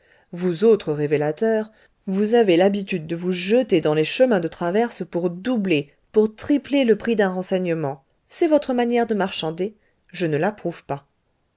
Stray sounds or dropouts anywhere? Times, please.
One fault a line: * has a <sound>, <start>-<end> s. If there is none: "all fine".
all fine